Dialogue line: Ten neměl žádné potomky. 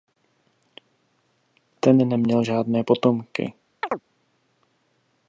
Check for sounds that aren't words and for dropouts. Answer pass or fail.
fail